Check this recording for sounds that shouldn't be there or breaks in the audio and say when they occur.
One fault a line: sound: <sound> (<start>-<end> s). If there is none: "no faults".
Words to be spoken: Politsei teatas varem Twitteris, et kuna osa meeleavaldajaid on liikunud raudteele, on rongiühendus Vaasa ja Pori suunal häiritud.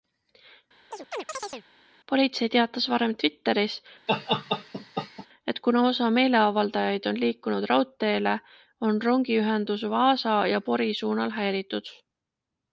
sound: chirp (0.9-1.7 s)
sound: laugh (4.1-5.3 s)